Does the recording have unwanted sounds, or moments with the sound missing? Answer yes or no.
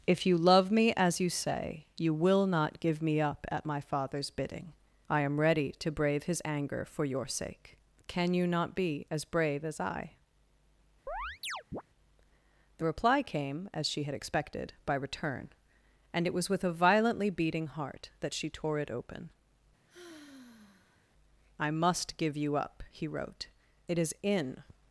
yes